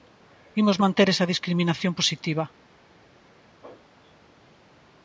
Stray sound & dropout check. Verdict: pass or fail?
pass